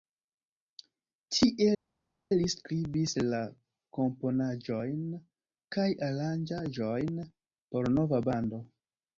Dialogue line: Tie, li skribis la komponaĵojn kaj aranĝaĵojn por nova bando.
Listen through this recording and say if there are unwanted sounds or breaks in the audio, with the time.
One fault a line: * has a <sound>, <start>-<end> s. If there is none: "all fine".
all fine